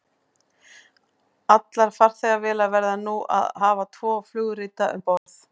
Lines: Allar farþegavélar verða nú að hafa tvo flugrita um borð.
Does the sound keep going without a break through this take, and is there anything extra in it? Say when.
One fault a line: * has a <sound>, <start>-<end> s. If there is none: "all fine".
* has a dropout, 5.2-5.3 s